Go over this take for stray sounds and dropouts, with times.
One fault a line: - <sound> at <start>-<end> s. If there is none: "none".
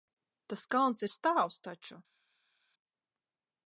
none